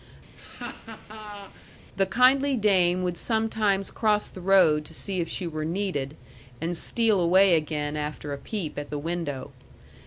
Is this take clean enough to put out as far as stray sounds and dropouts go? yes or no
no